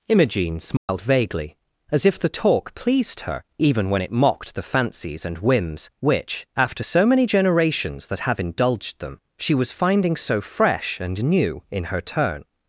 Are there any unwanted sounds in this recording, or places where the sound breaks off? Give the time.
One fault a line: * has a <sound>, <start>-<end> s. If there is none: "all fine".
* has a dropout, 0.8-0.9 s